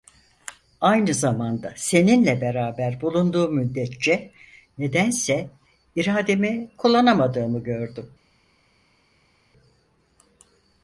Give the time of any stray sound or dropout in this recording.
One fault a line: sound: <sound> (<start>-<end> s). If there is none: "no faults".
no faults